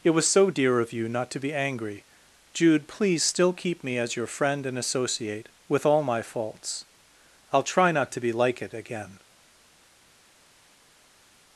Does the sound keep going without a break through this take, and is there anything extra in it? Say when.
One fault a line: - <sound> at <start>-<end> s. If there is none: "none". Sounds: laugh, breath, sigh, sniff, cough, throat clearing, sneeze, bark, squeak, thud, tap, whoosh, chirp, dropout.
none